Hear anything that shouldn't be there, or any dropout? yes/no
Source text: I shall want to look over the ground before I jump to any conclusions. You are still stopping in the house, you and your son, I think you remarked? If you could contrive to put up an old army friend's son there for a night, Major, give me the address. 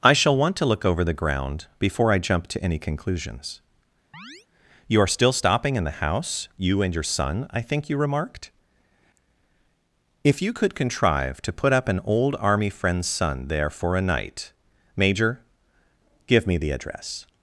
yes